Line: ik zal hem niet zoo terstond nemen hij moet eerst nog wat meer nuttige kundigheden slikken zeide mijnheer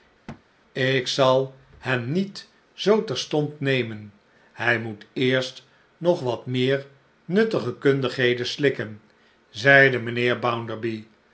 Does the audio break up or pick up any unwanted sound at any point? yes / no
yes